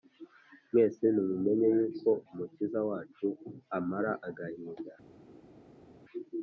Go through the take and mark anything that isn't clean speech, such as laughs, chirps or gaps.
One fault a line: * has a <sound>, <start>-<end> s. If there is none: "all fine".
all fine